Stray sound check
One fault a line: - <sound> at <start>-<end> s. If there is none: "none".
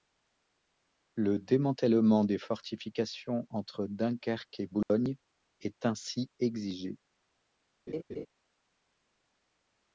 - dropout at 4.8-4.9 s
- laugh at 7.9-8.3 s